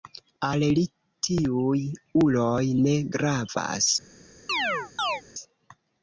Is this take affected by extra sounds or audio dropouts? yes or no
yes